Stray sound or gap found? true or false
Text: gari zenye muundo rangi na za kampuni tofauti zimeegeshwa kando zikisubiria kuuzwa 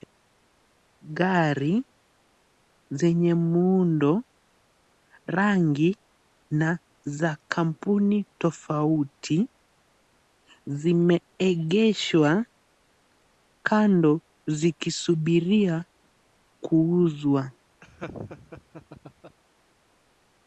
true